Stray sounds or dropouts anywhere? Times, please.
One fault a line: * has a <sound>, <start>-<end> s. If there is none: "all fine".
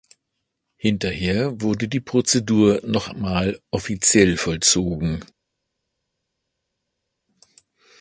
all fine